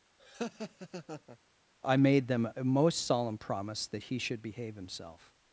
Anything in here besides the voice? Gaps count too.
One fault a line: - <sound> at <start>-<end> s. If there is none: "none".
- laugh at 0.2-1.4 s